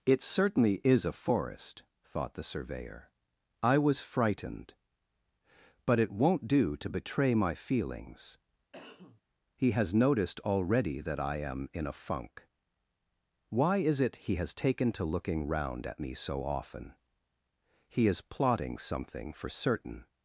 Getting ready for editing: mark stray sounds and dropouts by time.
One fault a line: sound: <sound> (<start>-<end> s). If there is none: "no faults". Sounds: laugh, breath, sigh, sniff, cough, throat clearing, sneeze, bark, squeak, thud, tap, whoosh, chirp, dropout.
sound: cough (8.7-9.2 s)